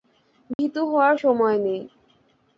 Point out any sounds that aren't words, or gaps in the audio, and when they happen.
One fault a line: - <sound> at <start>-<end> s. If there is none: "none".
- dropout at 0.5-0.6 s